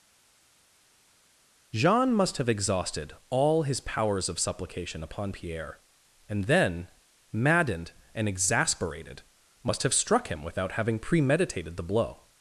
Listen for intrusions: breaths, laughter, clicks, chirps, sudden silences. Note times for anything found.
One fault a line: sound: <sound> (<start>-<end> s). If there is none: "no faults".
no faults